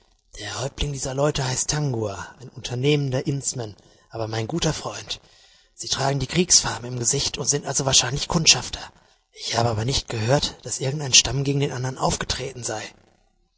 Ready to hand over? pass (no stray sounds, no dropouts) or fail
pass